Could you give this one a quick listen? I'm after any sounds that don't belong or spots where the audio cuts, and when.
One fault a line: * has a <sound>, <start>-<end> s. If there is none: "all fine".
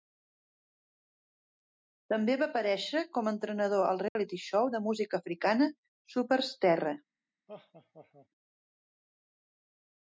* has a dropout, 4.1-4.2 s
* has a laugh, 7.5-8.3 s